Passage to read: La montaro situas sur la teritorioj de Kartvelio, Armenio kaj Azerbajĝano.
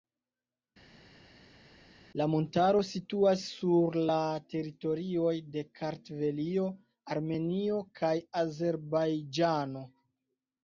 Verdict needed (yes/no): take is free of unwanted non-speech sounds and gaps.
yes